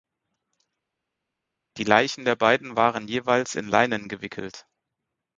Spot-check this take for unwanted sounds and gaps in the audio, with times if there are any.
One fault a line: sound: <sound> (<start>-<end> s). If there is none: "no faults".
no faults